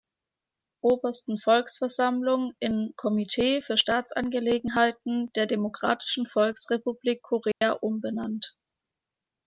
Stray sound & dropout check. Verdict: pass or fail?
fail